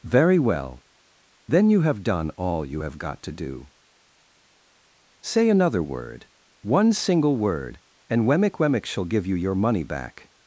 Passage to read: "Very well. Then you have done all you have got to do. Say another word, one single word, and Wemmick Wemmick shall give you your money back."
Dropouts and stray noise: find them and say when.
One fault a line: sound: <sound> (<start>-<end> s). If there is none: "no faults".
no faults